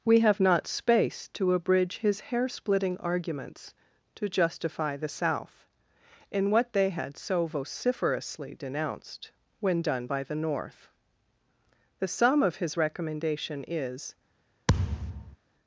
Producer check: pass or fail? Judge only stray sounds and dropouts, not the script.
fail